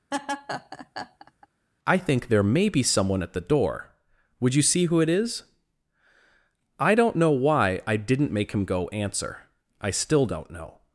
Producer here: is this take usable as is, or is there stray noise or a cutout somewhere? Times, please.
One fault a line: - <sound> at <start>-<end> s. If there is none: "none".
- laugh at 0.1-1.5 s